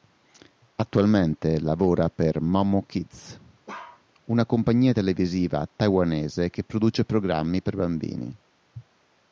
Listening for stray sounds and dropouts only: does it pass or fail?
fail